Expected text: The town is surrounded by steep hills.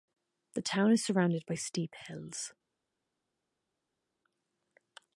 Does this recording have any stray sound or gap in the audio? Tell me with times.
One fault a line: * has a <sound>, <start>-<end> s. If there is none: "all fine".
all fine